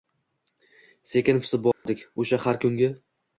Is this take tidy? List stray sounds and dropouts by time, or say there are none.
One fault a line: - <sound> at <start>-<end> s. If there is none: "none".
- dropout at 1.7-1.9 s